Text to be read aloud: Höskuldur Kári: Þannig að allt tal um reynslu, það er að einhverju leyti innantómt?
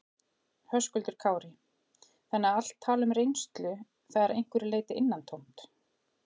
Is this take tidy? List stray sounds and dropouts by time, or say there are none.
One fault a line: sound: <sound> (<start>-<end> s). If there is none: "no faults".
no faults